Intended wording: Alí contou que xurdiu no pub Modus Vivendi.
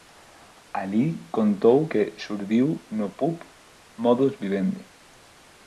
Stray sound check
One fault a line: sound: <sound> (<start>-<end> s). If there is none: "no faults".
no faults